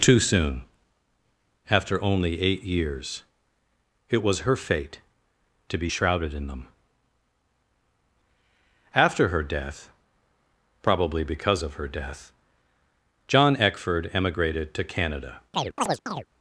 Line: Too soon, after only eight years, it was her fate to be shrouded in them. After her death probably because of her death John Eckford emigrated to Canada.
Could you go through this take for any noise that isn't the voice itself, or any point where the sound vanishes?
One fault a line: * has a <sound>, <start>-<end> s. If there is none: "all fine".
* has a chirp, 15.5-16.3 s